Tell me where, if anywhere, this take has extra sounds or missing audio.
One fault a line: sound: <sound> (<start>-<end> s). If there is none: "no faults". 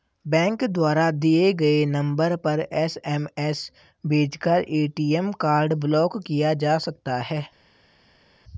no faults